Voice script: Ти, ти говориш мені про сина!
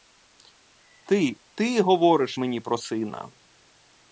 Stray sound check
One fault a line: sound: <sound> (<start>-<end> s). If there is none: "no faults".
no faults